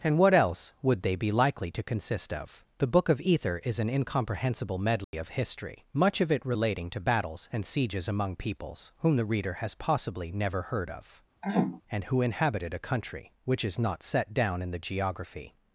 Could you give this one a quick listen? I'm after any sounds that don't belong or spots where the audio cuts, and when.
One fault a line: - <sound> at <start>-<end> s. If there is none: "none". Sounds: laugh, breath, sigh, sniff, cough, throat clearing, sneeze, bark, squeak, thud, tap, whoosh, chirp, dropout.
- dropout at 5.0-5.1 s
- throat clearing at 11.4-11.8 s